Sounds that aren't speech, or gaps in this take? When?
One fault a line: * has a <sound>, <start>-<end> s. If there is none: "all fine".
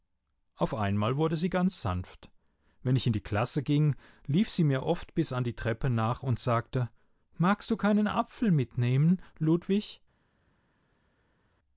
all fine